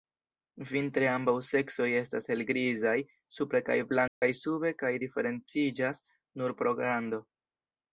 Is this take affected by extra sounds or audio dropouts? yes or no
yes